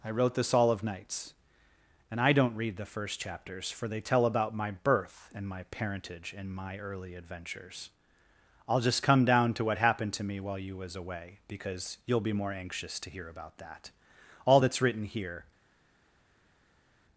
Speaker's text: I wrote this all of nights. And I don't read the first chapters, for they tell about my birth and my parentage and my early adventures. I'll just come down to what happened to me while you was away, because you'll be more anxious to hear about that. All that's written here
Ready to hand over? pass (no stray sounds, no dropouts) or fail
pass